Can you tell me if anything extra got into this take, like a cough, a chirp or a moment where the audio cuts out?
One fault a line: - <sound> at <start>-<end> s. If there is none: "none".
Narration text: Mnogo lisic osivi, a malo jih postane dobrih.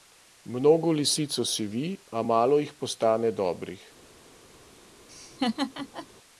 - laugh at 5.1-6.1 s